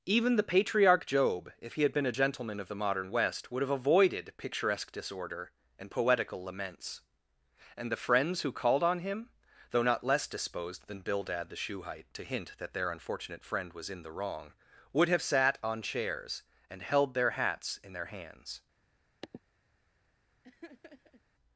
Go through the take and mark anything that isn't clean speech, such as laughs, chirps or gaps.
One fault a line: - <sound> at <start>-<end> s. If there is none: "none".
- sniff at 19.2-19.4 s
- laugh at 20.4-21.2 s